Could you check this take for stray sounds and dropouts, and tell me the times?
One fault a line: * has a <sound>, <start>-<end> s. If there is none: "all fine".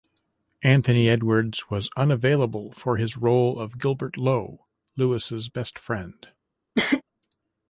* has a cough, 6.8-7.0 s